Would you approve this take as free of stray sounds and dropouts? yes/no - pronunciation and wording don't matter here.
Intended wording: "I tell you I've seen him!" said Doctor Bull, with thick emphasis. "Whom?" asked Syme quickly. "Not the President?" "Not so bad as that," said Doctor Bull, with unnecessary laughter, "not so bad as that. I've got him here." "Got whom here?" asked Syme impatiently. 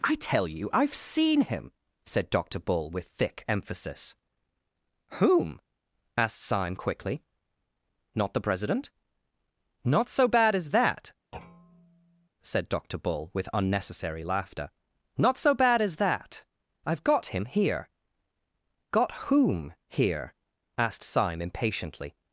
no